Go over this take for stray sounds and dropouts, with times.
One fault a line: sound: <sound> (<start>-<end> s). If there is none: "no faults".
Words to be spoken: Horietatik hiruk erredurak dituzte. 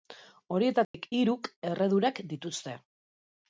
sound: dropout (0.8-0.9 s)